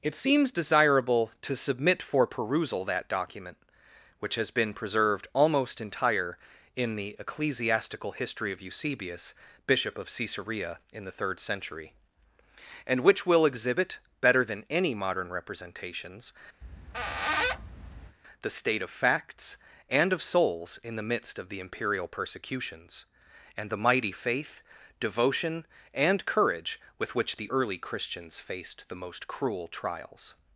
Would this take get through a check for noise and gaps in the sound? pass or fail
fail